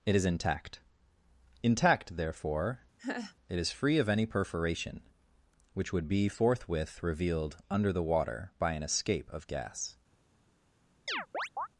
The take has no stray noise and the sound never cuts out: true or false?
false